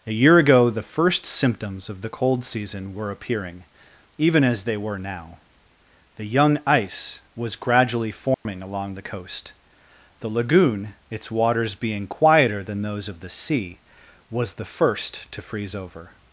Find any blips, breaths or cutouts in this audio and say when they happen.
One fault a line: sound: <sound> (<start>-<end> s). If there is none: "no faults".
sound: dropout (8.3-8.5 s)